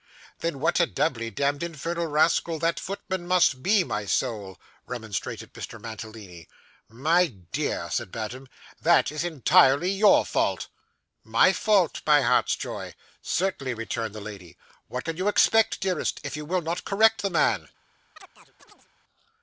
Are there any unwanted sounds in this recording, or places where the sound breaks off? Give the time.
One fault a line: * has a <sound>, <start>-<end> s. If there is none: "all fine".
* has a chirp, 18.2-18.9 s